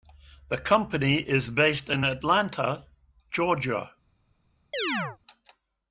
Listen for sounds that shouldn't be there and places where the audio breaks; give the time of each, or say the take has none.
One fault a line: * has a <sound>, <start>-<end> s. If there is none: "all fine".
* has a chirp, 4.7-5.2 s